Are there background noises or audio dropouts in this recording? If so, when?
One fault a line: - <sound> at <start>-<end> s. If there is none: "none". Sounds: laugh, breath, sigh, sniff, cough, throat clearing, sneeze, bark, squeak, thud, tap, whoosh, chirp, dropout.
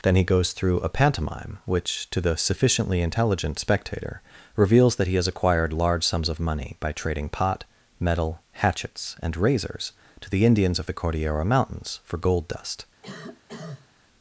- cough at 13.0-13.9 s